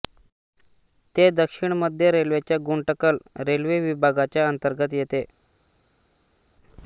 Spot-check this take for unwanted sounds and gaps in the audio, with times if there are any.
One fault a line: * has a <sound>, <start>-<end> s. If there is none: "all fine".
all fine